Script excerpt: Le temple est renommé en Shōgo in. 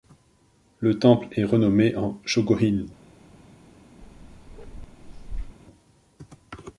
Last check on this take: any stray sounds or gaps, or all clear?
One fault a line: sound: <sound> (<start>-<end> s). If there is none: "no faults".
sound: bark (4.0-5.6 s)